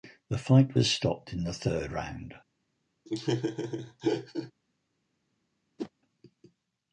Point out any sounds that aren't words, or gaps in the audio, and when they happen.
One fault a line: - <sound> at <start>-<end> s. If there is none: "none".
- laugh at 3.0-4.5 s
- whoosh at 5.8-5.9 s